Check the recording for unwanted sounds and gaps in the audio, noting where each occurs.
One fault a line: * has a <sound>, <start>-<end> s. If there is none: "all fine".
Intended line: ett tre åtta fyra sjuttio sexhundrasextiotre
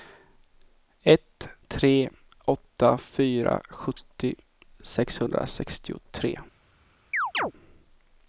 * has a chirp, 7.1-7.5 s